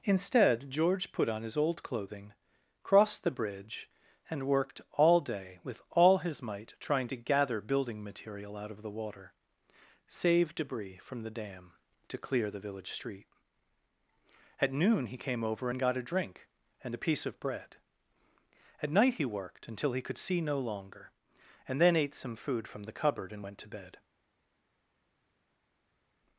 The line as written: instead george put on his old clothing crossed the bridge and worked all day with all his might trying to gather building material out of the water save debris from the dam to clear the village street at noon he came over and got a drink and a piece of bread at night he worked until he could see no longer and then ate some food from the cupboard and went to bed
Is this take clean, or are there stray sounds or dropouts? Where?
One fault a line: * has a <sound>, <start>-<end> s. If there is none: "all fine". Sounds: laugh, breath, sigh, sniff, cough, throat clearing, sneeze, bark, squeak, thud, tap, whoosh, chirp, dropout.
all fine